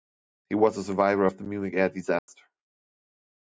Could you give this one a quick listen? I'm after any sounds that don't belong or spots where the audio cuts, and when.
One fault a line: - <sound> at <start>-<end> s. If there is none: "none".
- dropout at 2.2-2.3 s